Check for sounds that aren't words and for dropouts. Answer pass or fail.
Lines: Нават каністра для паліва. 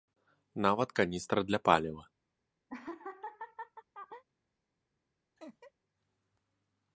fail